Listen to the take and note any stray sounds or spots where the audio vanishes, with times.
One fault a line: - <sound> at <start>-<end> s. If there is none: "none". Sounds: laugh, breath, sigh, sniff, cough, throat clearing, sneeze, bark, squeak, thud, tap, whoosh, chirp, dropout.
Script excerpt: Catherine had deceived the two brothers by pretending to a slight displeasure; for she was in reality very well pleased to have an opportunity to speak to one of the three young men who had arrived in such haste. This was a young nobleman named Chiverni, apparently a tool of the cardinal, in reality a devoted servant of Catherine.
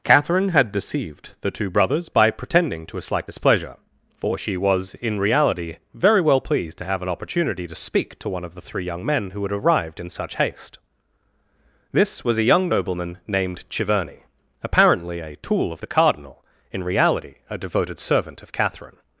none